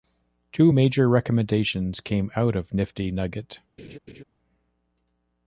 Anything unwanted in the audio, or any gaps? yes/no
yes